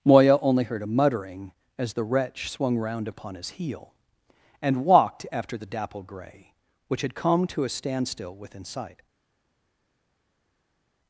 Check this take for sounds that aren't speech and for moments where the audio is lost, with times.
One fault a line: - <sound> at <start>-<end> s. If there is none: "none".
none